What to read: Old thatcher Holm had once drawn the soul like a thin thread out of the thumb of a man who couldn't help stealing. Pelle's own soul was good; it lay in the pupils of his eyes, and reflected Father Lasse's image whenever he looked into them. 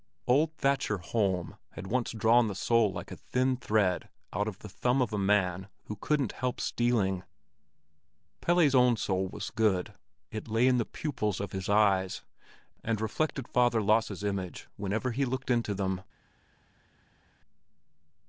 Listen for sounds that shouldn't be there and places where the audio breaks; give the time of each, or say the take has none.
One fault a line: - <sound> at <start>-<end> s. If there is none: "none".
none